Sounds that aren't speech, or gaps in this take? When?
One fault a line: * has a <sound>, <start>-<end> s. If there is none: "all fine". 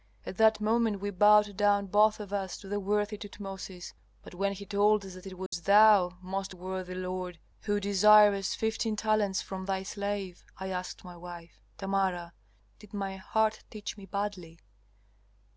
* has a dropout, 5.5-5.5 s